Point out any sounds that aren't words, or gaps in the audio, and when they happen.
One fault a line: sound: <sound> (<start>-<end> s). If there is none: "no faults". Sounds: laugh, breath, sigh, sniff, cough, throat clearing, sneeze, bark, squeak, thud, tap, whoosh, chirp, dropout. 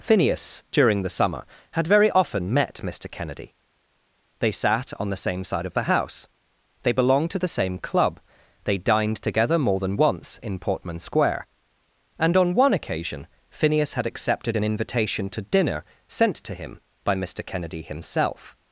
no faults